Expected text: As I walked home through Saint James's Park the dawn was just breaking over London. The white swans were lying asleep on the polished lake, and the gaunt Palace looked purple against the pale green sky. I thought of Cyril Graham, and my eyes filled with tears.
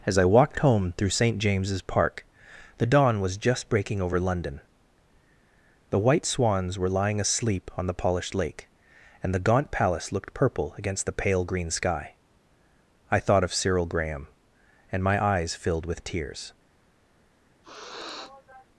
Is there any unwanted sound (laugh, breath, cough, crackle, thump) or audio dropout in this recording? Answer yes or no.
yes